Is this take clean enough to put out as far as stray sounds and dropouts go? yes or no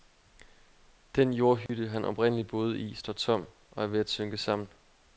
no